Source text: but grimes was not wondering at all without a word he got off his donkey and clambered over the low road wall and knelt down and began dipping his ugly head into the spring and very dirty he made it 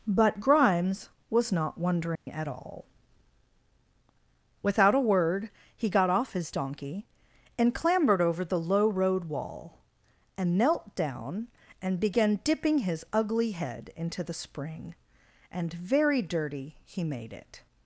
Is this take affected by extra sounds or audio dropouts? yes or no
yes